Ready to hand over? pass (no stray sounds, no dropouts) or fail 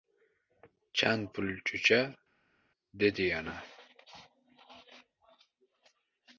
pass